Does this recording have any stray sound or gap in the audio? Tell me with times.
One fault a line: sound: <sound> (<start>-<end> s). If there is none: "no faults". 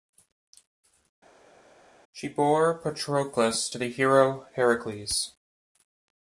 no faults